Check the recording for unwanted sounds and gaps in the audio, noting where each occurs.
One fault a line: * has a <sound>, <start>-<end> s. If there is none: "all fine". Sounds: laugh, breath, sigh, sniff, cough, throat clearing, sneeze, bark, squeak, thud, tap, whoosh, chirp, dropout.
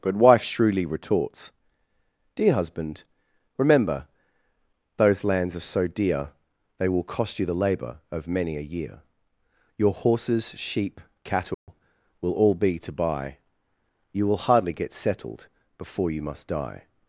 * has a dropout, 11.5-11.7 s